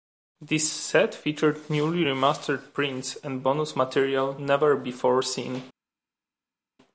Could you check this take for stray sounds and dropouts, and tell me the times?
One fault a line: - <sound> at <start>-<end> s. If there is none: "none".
none